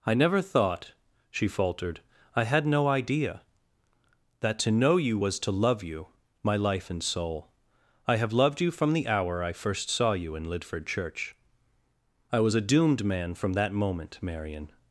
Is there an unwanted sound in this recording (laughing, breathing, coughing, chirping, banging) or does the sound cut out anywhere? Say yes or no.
no